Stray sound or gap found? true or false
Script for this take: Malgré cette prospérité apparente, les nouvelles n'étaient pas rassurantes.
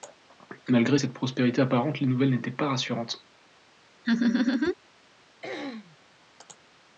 true